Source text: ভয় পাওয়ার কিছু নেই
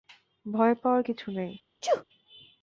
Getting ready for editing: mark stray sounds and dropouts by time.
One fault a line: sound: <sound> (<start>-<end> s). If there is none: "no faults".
sound: sneeze (1.8-2.0 s)